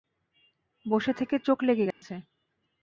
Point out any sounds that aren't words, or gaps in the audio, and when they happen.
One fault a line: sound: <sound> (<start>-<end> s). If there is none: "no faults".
sound: dropout (1.9-2.0 s)